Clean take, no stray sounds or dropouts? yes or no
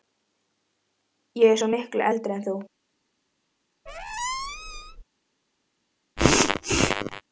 no